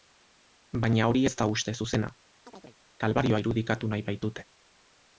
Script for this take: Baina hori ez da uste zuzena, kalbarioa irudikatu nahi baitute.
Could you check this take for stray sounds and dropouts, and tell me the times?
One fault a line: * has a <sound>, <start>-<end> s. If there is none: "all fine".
* has a chirp, 2.5-2.8 s